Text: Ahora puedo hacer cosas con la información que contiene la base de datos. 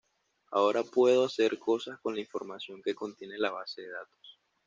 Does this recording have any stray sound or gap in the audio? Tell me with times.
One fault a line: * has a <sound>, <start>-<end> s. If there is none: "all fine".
all fine